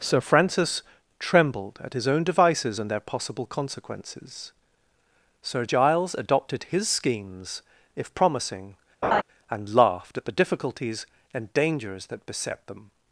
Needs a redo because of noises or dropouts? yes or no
yes